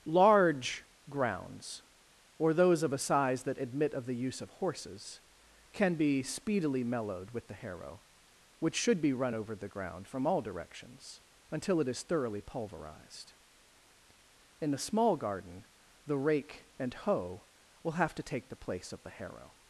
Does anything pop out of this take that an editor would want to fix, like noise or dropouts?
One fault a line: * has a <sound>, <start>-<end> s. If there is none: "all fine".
all fine